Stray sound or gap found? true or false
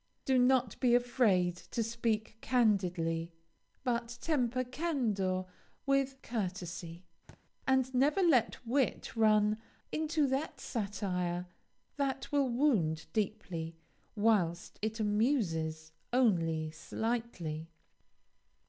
true